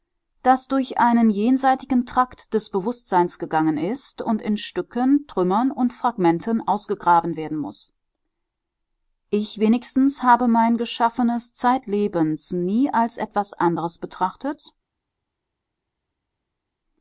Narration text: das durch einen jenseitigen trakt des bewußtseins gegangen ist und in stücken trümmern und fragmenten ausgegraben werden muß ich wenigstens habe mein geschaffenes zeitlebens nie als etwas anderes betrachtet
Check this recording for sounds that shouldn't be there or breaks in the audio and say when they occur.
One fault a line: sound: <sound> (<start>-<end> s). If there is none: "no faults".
no faults